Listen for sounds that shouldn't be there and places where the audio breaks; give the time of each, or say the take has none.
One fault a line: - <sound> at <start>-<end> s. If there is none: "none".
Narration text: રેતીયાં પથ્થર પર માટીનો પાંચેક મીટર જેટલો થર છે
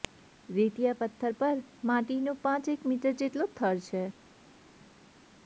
none